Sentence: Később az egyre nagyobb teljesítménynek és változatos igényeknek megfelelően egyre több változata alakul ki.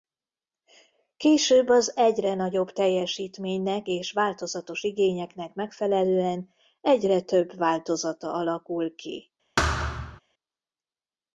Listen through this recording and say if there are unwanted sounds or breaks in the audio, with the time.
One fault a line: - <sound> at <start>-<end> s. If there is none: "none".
- thud at 9.6-10.2 s